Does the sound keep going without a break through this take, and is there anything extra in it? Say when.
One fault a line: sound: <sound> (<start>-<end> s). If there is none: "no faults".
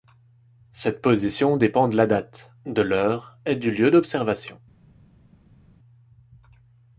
no faults